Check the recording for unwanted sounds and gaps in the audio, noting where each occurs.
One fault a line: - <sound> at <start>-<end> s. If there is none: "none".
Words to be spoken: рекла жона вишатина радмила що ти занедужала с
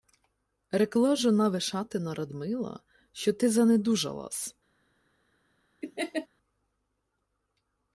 - laugh at 5.8-6.3 s